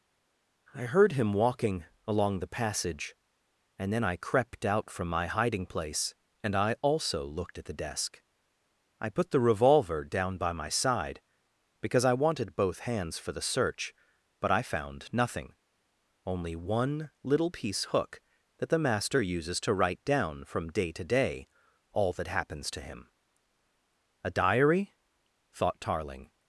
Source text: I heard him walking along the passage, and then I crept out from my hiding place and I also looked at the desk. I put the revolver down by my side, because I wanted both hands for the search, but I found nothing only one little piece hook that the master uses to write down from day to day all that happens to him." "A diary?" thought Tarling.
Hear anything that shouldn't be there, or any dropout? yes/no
no